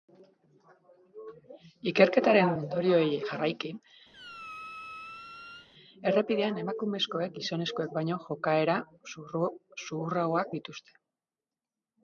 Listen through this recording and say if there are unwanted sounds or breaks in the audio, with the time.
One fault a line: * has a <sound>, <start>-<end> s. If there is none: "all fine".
* has a squeak, 4.1-5.7 s